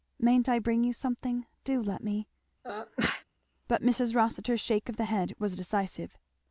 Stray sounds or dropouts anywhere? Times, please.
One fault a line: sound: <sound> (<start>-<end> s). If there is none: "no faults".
sound: sneeze (2.6-3.2 s)